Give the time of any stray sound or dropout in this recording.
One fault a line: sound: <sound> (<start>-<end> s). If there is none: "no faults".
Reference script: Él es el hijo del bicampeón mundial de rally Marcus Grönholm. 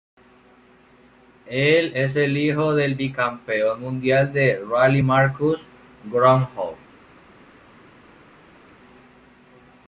no faults